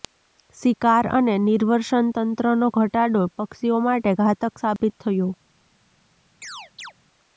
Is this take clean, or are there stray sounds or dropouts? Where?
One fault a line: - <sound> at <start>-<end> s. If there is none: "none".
- dropout at 4.8-4.8 s
- chirp at 6.4-6.9 s